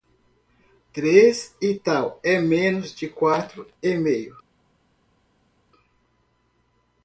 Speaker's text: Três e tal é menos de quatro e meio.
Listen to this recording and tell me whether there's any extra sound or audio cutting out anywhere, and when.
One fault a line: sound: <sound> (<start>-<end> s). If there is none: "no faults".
no faults